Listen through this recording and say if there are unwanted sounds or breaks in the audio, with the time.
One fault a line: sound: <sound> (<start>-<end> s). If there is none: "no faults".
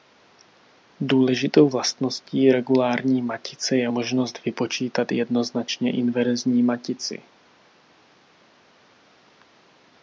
no faults